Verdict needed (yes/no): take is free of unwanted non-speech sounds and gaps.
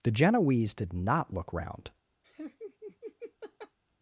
no